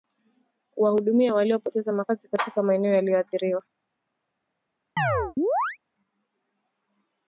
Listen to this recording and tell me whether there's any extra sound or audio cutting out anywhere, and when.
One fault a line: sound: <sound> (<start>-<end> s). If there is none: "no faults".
sound: chirp (5.0-5.8 s)